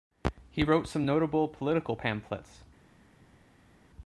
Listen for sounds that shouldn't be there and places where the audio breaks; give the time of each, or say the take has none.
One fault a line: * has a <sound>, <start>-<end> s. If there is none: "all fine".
all fine